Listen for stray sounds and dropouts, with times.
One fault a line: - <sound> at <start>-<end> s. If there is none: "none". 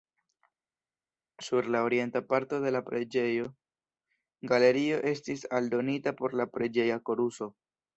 none